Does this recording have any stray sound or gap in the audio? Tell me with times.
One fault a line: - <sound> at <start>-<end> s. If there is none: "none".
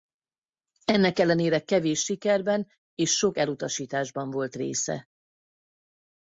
none